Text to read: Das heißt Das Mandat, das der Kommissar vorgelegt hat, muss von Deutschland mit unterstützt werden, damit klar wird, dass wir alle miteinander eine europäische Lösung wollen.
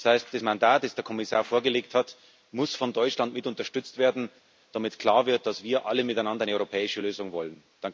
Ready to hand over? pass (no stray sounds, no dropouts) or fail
pass